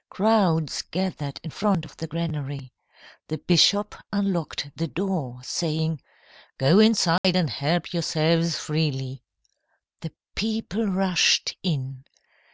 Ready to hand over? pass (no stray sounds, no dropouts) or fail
fail